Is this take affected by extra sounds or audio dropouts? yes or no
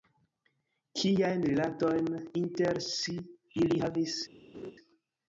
yes